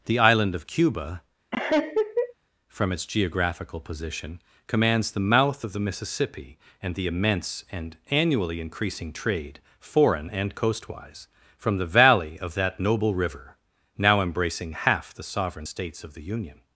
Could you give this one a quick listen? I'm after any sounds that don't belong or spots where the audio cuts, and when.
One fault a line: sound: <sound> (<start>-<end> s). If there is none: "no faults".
sound: laugh (1.5-2.3 s)